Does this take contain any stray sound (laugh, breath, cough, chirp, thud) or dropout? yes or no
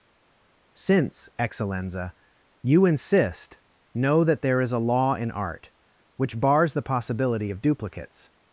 no